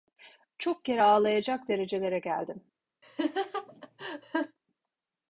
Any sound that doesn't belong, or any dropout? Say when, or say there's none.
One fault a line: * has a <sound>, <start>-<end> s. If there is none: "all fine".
* has a laugh, 3.0-4.6 s